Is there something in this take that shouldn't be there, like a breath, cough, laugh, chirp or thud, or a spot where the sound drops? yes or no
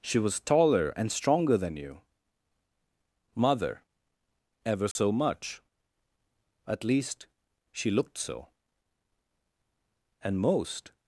yes